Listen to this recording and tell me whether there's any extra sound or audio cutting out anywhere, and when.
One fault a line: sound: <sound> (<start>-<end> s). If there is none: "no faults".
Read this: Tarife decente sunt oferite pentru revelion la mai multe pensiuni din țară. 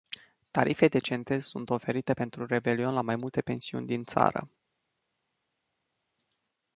no faults